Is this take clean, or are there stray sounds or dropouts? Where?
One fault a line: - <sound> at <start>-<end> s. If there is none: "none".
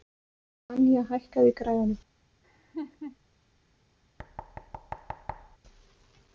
- laugh at 2.4-3.2 s
- thud at 4.2-5.6 s